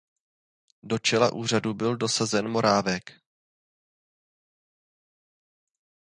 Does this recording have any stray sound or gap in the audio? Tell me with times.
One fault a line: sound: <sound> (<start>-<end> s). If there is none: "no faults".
no faults